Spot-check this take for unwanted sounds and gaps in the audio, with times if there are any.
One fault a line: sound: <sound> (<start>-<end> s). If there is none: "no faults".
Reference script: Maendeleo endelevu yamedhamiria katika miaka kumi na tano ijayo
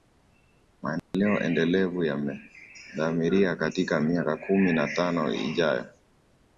sound: dropout (1.0-1.1 s)